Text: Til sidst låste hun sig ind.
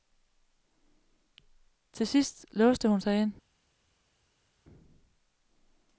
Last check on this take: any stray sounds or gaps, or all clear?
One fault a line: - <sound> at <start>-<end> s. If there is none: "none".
none